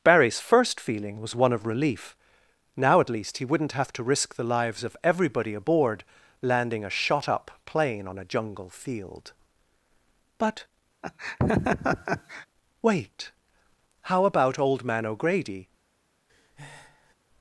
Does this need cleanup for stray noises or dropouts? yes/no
yes